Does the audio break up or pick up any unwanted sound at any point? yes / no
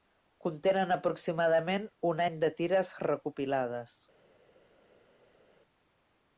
no